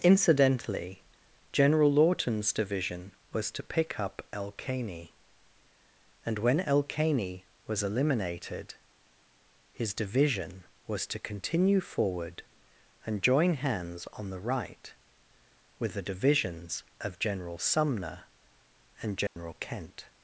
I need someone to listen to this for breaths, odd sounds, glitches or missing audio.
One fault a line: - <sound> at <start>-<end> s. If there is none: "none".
- dropout at 19.3-19.4 s